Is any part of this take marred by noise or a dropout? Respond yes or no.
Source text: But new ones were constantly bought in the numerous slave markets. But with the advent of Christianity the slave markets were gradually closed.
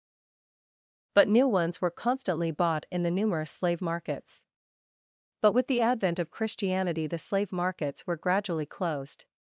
no